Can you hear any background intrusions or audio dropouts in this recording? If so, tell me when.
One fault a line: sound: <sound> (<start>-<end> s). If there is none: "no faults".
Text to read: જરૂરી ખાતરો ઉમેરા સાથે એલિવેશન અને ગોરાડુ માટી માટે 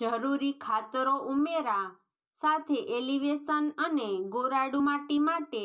no faults